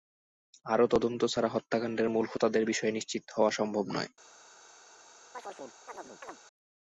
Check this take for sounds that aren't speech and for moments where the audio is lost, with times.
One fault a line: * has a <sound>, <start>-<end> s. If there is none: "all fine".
* has a chirp, 5.3-6.4 s